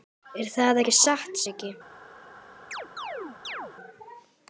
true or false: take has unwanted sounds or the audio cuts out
true